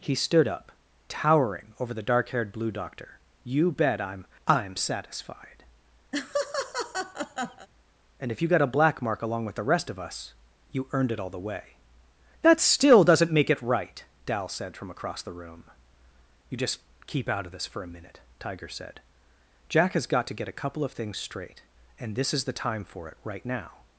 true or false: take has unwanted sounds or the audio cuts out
true